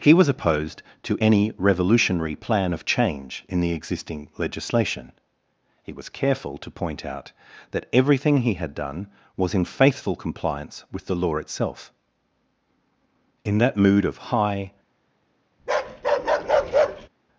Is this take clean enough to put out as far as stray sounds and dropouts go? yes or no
no